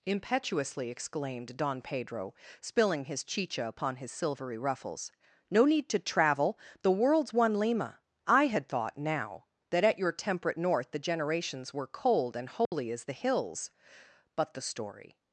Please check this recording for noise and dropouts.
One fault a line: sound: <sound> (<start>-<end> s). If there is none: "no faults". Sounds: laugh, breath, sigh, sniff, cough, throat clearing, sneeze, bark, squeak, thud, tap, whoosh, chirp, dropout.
sound: dropout (12.7-12.7 s)